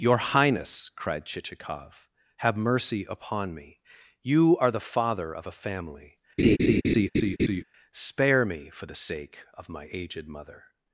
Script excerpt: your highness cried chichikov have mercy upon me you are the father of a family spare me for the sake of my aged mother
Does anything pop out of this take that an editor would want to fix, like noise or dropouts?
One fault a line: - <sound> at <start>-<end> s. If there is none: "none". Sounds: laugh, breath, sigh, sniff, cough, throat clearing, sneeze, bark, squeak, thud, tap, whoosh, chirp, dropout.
- laugh at 6.4-7.6 s